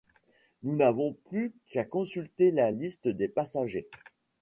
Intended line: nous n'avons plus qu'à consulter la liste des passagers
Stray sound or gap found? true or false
false